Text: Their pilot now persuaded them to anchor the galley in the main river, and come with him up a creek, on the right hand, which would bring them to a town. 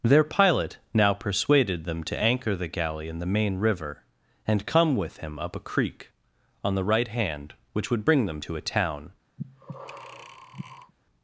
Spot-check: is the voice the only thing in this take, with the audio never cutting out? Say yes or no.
no